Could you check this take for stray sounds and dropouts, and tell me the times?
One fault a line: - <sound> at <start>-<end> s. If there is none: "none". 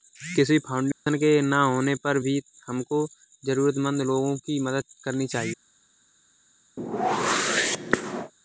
- dropout at 0.9-1.1 s
- whoosh at 6.8-8.3 s